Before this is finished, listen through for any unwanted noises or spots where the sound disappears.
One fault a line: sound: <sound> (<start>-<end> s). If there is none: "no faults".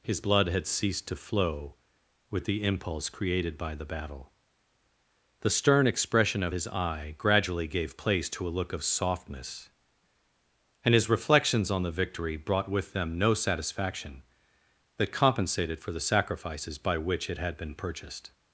no faults